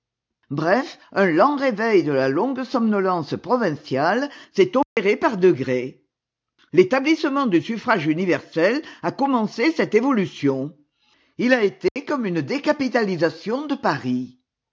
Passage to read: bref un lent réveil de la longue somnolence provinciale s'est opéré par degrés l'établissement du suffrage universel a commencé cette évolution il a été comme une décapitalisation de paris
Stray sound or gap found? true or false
true